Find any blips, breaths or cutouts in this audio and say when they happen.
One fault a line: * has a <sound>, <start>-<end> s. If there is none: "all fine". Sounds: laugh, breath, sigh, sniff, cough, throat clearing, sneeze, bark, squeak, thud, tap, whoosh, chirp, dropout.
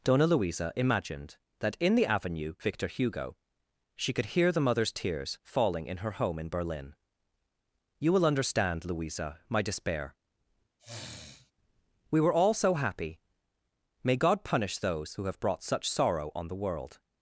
* has a sniff, 10.8-11.5 s